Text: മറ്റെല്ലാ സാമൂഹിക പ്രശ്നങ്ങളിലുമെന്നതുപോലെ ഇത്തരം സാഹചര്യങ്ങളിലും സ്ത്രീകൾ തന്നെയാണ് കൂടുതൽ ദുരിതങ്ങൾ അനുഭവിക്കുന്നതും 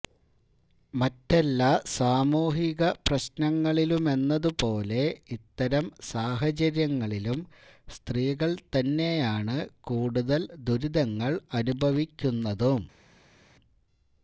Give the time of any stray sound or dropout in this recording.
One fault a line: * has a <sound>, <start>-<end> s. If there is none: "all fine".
all fine